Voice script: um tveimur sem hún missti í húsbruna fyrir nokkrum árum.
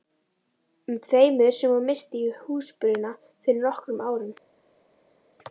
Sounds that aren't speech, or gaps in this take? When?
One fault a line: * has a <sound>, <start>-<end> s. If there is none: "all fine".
all fine